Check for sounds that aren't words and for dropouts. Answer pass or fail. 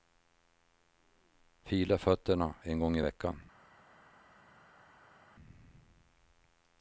pass